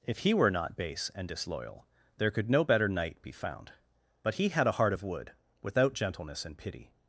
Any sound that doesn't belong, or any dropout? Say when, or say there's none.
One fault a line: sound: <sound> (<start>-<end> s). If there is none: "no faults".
no faults